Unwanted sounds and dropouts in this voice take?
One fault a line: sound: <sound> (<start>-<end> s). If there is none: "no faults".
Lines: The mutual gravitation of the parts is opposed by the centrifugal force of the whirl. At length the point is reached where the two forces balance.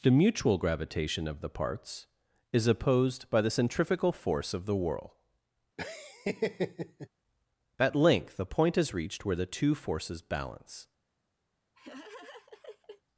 sound: laugh (5.8-7.1 s)
sound: laugh (11.7-13.0 s)